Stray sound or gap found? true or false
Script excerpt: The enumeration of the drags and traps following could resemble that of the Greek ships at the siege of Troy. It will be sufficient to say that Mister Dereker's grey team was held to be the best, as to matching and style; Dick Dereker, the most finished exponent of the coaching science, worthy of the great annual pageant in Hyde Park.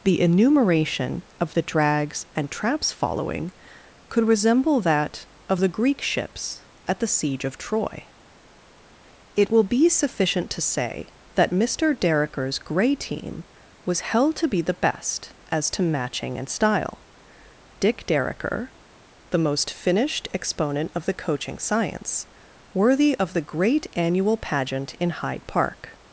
false